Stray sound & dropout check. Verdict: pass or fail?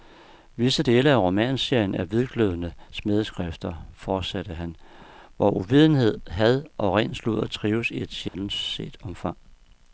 fail